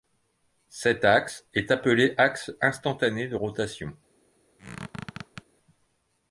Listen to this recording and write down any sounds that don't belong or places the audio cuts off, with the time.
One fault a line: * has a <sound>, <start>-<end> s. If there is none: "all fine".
* has a squeak, 4.6-5.4 s